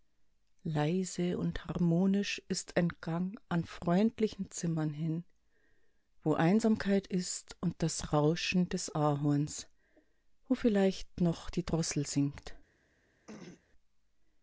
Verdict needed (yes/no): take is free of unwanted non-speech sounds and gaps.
no